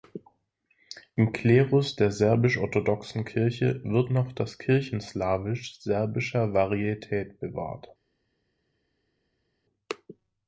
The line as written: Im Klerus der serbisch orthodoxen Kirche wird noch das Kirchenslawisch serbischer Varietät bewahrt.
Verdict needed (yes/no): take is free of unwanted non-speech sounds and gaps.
yes